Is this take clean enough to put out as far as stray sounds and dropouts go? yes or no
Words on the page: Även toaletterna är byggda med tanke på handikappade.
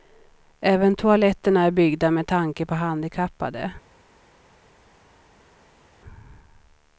yes